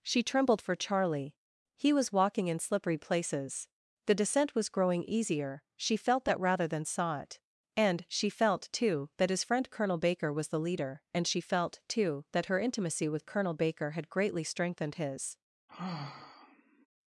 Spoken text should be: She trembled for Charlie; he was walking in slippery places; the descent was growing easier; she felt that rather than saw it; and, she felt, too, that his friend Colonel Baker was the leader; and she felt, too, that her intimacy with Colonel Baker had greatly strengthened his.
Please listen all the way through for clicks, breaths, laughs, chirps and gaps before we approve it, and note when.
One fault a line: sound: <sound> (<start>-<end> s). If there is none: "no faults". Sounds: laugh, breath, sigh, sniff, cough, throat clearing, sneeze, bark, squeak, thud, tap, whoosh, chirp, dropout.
sound: sigh (15.7-16.9 s)